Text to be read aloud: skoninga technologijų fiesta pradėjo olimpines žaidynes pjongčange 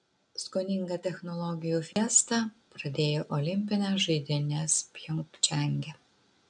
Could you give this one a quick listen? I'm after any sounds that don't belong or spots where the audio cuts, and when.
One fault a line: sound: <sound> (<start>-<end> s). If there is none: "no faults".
sound: dropout (1.9-2.0 s)